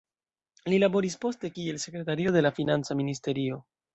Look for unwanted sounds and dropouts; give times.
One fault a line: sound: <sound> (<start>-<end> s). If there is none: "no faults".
no faults